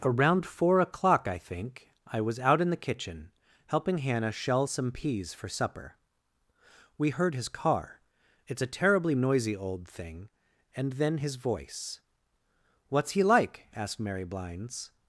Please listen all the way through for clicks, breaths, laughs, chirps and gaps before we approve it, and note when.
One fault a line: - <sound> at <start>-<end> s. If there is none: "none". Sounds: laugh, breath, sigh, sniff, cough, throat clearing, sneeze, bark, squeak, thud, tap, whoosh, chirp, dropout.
none